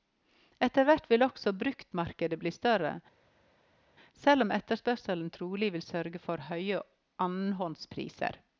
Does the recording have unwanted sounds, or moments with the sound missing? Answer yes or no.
no